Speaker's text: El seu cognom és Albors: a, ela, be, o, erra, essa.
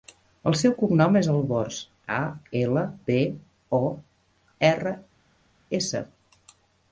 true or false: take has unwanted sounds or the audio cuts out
false